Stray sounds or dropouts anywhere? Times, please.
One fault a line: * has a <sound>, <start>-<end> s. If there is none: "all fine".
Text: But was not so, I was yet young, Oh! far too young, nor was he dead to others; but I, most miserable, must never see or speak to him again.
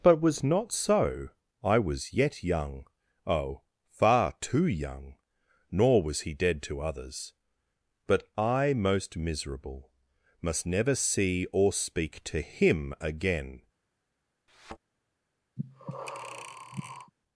* has a thud, 14.5-14.8 s
* has a breath, 15.6-17.1 s